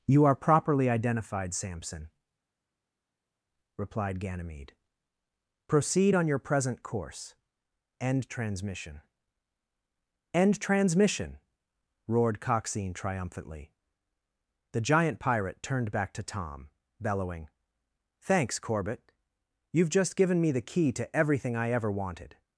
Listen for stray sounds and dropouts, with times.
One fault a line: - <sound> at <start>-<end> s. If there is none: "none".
none